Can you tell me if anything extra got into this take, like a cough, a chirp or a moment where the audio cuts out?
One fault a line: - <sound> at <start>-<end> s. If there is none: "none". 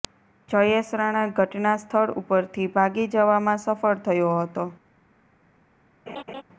- laugh at 6.1-6.4 s